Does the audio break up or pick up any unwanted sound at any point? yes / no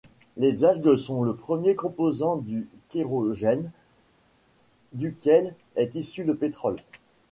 no